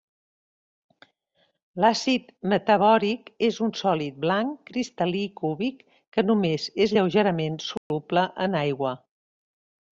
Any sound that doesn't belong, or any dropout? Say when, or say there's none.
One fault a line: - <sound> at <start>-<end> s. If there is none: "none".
- dropout at 7.8-7.9 s